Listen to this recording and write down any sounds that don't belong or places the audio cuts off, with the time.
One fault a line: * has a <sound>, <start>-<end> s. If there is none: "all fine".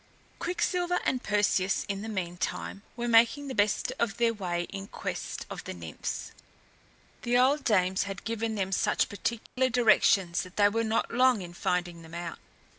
* has a dropout, 9.5-9.6 s